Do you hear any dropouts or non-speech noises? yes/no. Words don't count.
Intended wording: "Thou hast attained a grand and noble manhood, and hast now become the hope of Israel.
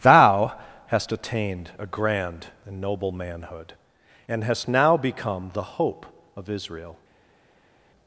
no